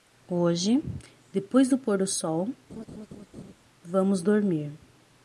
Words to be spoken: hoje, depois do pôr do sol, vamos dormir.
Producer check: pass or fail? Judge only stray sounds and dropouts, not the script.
fail